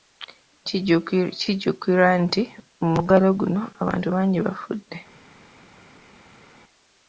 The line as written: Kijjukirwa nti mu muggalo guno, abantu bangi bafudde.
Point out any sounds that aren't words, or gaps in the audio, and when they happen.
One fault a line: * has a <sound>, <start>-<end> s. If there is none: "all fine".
all fine